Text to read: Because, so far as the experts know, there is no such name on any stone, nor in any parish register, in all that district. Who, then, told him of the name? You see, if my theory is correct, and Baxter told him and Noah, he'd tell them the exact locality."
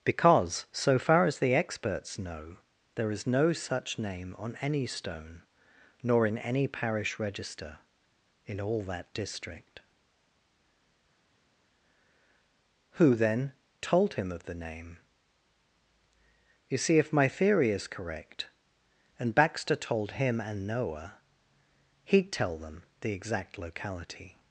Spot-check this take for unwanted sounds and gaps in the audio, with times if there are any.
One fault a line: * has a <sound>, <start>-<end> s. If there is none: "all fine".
all fine